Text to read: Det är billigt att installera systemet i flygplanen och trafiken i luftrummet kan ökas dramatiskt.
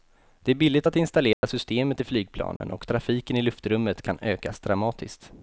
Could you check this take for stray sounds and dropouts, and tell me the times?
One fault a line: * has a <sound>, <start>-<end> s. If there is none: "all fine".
* has a dropout, 1.3-1.4 s
* has a dropout, 2.6-2.6 s